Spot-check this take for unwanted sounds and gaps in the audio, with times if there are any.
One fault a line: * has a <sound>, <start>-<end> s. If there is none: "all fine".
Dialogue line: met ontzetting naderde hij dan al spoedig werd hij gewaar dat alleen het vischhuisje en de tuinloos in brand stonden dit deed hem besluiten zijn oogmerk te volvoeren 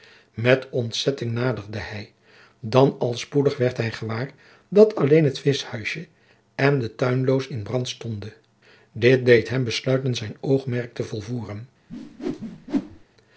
* has a whoosh, 11.9-13.0 s